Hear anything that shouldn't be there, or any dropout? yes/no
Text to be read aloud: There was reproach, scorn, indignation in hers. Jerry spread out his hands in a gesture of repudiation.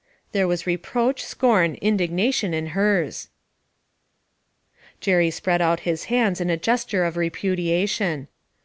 no